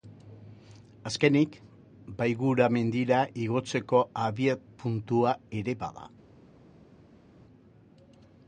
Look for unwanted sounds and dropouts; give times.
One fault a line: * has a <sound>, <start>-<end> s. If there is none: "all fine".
all fine